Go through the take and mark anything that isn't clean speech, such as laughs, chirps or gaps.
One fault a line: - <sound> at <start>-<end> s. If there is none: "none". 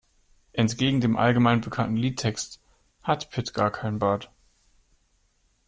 none